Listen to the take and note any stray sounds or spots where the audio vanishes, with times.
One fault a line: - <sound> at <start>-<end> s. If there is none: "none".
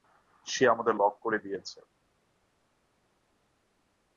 none